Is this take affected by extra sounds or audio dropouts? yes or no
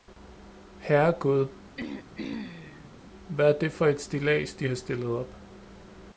yes